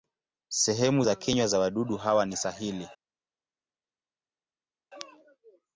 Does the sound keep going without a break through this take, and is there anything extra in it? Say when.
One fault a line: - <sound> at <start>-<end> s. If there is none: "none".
none